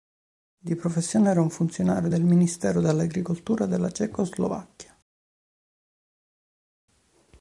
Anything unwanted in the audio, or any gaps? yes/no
no